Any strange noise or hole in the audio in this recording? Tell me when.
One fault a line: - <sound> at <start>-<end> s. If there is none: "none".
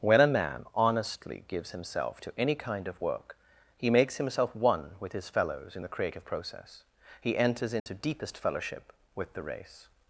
- dropout at 7.8-7.9 s